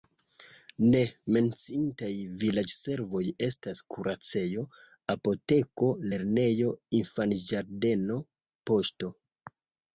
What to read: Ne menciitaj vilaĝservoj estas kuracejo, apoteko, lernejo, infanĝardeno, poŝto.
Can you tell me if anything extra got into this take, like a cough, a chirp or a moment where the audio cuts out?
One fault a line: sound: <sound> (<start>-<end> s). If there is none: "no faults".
no faults